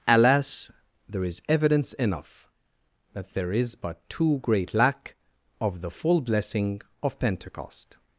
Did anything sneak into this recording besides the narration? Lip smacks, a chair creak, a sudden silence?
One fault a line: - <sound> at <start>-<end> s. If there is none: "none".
none